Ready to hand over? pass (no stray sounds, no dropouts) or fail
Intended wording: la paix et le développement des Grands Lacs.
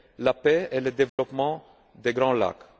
fail